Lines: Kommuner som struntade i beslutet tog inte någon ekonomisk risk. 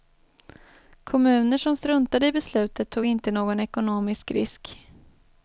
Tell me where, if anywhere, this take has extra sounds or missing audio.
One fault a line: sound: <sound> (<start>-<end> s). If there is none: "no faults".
no faults